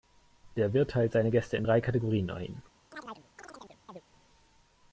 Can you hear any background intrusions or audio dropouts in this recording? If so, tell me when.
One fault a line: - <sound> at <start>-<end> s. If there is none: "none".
- chirp at 2.9-4.0 s